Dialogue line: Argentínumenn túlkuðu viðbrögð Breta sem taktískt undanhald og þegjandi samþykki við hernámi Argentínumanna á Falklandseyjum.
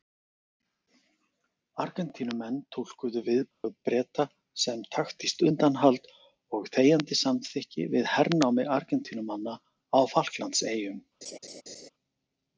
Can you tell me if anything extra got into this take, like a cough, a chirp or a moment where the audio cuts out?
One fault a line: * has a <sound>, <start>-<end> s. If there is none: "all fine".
* has a dropout, 3.5-3.6 s
* has a laugh, 11.2-11.9 s